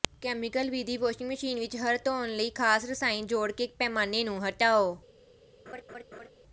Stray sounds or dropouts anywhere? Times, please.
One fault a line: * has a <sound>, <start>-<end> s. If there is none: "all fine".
* has a laugh, 5.7-6.3 s